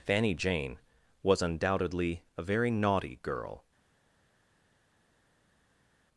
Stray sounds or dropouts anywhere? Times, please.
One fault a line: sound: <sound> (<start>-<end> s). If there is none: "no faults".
no faults